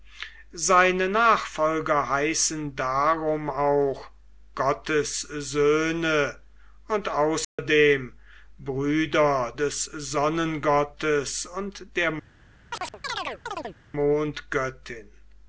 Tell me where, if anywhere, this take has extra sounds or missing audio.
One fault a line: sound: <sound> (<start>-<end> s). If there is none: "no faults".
sound: dropout (7.4-7.6 s)
sound: chirp (12.7-13.8 s)